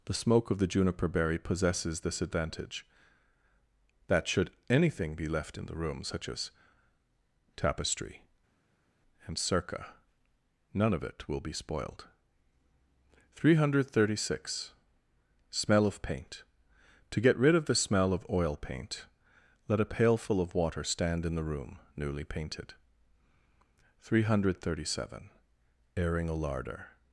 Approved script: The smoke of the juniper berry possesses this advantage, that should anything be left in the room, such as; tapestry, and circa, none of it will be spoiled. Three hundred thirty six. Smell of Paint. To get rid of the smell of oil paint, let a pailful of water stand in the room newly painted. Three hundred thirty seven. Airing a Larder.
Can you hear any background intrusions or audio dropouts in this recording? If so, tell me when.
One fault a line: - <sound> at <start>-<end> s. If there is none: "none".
none